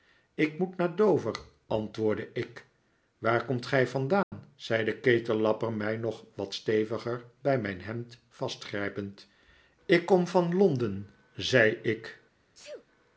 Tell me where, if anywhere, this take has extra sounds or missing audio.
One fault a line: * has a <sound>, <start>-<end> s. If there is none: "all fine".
* has a dropout, 4.2-4.3 s
* has a sneeze, 12.5-12.9 s